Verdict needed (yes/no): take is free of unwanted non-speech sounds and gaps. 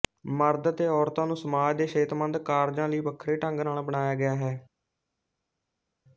yes